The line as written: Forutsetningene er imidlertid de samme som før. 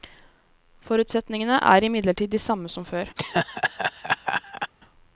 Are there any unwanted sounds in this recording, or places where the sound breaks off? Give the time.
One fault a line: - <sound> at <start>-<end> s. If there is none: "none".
- laugh at 3.2-4.7 s